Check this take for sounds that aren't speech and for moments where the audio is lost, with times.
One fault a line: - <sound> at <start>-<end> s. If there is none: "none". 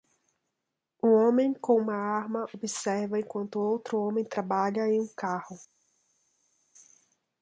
none